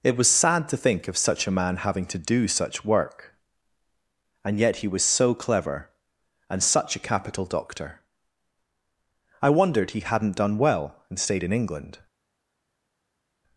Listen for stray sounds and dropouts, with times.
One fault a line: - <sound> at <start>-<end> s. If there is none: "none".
none